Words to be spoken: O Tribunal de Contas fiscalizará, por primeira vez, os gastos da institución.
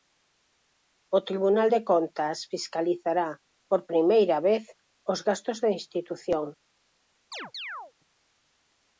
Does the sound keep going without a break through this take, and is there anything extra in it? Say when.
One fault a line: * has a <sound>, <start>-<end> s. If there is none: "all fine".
* has a chirp, 7.3-7.9 s